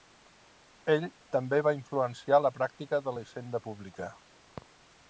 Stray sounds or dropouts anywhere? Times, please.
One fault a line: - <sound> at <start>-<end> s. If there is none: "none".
none